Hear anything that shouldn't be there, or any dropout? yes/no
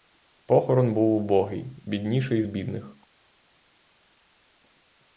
no